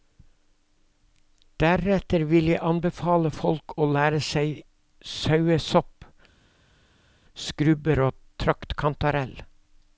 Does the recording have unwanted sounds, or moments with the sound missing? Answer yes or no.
no